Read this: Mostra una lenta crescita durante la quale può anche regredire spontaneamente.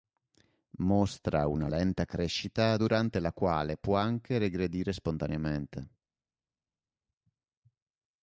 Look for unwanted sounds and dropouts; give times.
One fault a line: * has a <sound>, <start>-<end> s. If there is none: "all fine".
all fine